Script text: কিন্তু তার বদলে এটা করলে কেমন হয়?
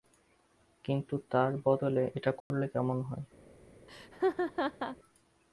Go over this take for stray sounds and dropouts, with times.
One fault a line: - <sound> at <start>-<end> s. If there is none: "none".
- dropout at 2.4-2.5 s
- laugh at 3.9-5.0 s